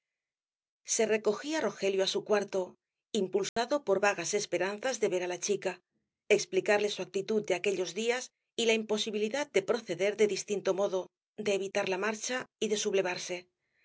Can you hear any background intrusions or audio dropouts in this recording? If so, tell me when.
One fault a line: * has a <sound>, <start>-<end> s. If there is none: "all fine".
* has a dropout, 3.5-3.6 s